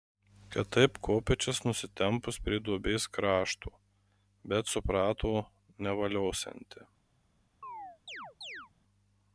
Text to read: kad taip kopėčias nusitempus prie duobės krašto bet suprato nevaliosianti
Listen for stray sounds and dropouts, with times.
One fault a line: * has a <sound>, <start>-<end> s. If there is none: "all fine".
* has a chirp, 7.6-8.7 s